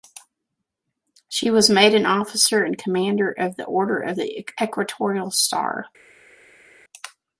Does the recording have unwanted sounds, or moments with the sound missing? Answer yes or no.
no